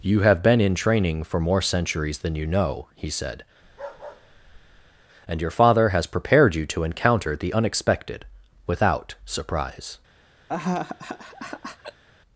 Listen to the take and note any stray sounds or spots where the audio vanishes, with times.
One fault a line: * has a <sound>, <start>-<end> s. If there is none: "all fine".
* has a bark, 3.6-5.0 s
* has a laugh, 10.5-12.0 s